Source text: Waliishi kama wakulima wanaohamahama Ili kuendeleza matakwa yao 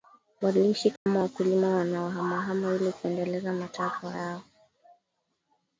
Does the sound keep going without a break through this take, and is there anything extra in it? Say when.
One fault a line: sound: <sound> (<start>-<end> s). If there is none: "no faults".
sound: dropout (1.0-1.1 s)